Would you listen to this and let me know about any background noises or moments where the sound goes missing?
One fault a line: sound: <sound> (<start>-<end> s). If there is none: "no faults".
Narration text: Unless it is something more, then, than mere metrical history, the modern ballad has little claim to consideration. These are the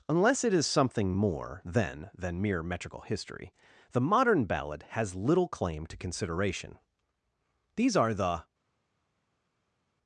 no faults